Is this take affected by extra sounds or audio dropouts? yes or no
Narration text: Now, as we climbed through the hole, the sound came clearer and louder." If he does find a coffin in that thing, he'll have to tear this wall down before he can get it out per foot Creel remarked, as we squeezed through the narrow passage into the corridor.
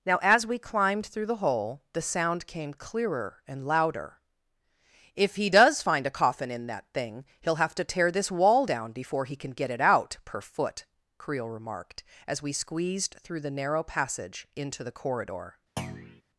yes